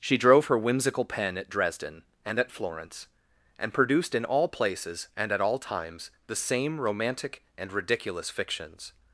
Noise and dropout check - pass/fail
pass